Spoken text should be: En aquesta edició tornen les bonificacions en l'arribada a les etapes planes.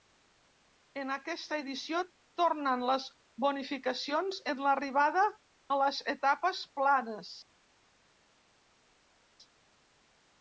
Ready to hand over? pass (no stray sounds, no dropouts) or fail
pass